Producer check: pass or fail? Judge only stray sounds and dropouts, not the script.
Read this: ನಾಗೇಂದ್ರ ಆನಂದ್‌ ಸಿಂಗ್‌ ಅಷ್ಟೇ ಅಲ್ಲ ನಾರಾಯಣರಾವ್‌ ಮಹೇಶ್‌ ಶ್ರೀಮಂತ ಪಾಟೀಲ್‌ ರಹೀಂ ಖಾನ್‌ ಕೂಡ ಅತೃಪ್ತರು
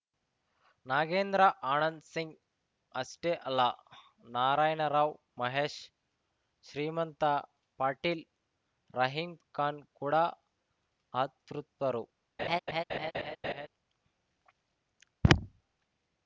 fail